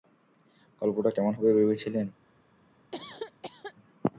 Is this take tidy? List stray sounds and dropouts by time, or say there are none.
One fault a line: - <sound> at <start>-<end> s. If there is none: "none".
- cough at 2.9-3.7 s